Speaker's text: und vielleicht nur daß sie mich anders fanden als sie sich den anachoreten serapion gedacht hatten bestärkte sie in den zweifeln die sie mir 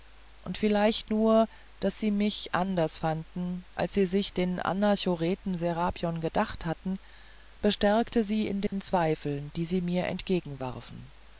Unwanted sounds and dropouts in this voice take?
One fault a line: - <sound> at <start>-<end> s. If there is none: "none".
- dropout at 8.7-8.7 s